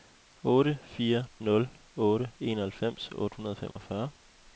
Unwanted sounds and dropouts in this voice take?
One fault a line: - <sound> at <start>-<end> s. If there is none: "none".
- dropout at 3.7-3.8 s